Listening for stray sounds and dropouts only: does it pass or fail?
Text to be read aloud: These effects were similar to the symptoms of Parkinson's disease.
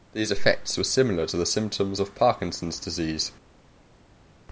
pass